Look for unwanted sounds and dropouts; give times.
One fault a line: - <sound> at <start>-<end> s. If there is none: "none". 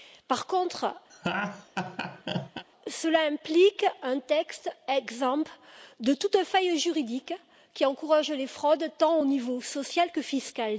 - laugh at 1.1-2.6 s